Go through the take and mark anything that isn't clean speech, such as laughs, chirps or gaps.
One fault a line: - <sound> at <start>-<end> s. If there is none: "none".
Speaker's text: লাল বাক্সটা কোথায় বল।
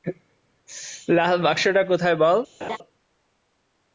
- laugh at 2.6-2.8 s